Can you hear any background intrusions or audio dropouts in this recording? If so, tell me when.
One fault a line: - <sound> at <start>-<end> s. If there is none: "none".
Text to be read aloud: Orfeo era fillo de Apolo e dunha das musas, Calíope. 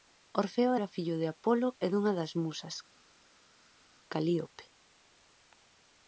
none